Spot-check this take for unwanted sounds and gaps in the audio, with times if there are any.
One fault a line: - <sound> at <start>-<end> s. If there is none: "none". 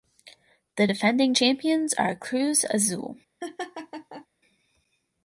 - laugh at 3.4-4.3 s